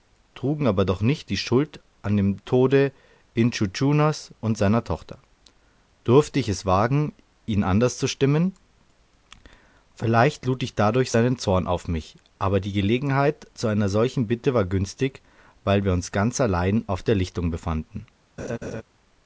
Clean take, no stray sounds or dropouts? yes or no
no